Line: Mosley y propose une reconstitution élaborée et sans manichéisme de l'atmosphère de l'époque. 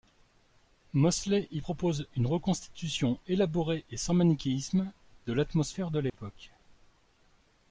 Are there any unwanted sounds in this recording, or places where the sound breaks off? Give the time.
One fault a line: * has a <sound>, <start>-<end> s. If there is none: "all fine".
* has a dropout, 6.1-6.1 s